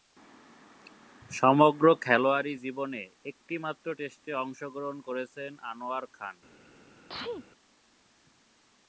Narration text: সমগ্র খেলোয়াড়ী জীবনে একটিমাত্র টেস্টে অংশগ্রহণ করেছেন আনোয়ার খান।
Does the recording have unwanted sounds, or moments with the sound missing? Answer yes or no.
yes